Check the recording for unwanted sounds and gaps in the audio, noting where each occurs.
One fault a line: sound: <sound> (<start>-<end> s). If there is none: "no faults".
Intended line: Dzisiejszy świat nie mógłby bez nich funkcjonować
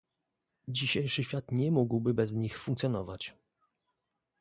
no faults